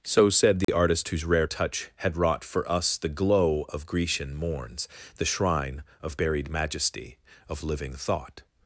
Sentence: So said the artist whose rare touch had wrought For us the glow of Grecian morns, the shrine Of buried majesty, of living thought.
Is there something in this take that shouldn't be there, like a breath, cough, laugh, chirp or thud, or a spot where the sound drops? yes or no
yes